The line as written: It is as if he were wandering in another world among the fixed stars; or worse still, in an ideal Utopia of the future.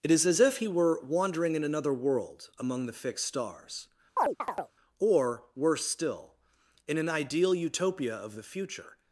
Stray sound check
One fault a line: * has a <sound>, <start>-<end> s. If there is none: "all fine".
* has a chirp, 4.2-4.7 s